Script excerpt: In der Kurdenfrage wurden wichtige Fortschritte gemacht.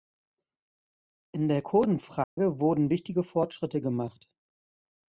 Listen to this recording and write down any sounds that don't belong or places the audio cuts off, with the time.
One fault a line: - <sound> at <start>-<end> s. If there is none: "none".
- dropout at 2.2-2.4 s